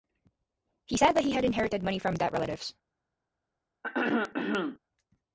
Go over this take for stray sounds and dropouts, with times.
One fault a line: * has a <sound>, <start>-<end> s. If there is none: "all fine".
* has a throat clearing, 3.8-4.8 s